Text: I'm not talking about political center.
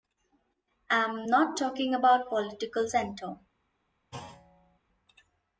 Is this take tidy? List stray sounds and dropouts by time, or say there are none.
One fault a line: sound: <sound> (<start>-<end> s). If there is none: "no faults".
sound: thud (4.1-4.8 s)